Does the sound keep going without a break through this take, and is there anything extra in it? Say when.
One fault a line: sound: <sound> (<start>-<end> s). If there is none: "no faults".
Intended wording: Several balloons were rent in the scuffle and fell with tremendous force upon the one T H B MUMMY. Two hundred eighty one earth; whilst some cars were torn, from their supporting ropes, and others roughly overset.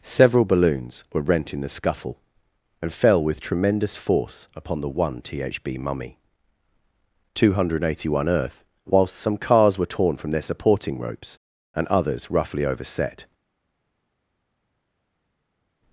no faults